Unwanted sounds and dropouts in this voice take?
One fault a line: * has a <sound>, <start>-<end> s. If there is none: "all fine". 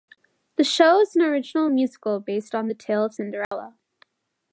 * has a dropout, 3.4-3.5 s